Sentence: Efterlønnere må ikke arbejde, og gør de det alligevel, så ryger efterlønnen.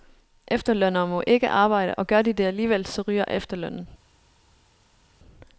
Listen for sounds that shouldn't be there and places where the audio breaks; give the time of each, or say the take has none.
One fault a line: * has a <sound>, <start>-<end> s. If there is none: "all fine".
all fine